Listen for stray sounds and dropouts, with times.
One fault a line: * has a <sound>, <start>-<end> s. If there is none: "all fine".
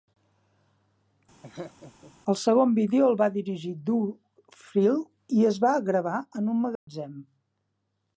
* has a laugh, 1.4-2.1 s
* has a dropout, 6.8-6.9 s